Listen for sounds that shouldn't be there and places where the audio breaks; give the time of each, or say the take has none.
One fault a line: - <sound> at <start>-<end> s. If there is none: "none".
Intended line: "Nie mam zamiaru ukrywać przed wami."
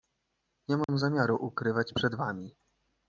- dropout at 0.8-0.9 s